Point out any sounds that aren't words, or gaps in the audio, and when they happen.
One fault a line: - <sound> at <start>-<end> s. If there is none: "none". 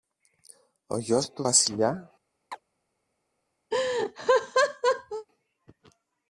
- chirp at 2.5-2.6 s
- laugh at 3.7-5.3 s